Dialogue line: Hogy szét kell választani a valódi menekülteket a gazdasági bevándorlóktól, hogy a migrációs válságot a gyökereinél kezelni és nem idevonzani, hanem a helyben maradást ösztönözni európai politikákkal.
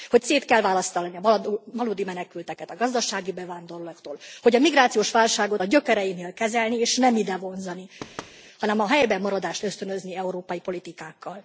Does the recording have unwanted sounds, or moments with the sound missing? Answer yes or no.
yes